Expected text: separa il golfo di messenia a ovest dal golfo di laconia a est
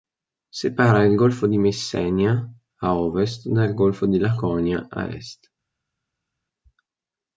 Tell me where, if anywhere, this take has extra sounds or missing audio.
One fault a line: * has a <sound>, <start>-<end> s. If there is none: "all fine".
all fine